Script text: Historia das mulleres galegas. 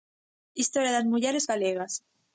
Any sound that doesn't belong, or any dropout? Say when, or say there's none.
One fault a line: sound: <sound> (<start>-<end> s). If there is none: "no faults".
no faults